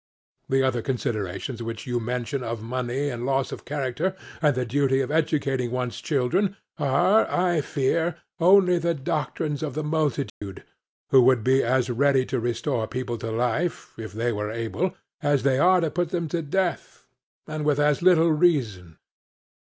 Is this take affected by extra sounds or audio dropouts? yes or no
yes